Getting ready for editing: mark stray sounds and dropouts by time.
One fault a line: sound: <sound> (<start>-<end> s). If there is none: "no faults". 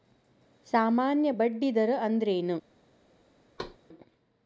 sound: thud (3.6-3.8 s)